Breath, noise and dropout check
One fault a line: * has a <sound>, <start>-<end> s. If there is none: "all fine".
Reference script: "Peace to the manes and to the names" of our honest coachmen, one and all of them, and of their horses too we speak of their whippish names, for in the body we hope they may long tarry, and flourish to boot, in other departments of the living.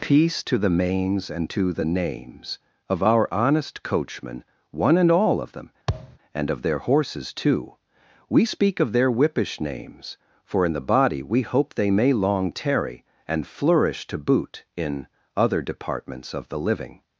* has a thud, 5.9-6.2 s